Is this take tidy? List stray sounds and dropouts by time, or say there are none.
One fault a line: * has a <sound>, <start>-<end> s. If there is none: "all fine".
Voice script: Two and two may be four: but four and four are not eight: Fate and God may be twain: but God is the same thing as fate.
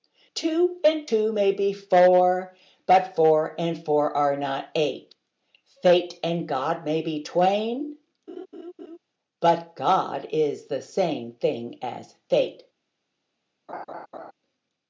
* has a laugh, 8.3-9.0 s
* has a laugh, 13.7-14.3 s